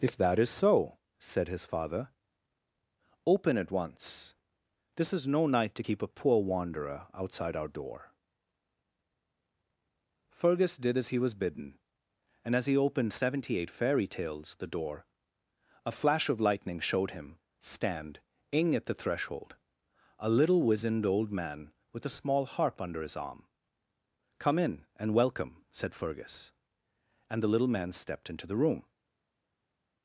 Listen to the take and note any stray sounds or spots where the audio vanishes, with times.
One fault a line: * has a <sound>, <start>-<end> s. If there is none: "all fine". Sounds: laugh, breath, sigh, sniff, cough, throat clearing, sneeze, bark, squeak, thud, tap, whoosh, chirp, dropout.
all fine